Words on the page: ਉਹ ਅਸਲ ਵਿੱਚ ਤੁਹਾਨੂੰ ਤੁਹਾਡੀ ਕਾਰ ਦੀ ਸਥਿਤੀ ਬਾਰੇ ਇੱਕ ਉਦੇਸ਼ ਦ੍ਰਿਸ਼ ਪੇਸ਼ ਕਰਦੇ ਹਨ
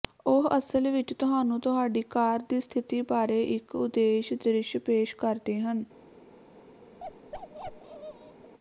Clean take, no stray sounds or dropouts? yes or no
no